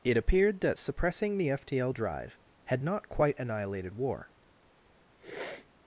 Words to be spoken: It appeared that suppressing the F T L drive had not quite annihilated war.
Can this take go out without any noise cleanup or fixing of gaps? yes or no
no